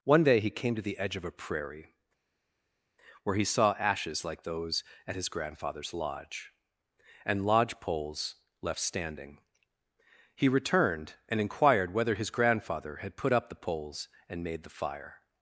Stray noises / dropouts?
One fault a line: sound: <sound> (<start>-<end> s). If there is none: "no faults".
no faults